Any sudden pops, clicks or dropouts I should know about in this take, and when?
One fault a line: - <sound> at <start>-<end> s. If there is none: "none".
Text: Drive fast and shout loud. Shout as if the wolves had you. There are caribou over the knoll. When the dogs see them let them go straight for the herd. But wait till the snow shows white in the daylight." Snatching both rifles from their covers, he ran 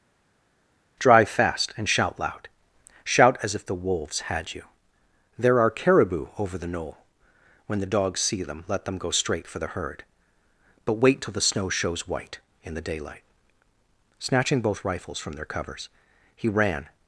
none